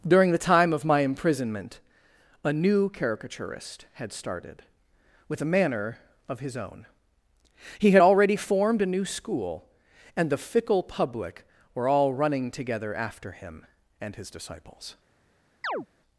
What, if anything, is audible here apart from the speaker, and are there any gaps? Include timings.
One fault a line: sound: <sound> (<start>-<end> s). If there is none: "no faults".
sound: chirp (15.6-15.9 s)